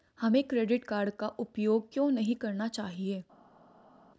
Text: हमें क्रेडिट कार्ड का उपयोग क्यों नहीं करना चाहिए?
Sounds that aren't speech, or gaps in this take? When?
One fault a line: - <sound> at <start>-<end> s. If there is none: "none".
none